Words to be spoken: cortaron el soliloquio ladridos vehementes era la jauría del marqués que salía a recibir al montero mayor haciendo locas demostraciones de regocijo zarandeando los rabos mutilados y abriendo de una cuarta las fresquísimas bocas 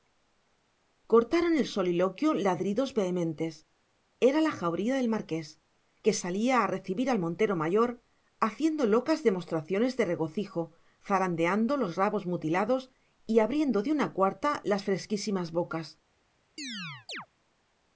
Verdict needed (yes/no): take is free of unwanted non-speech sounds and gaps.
no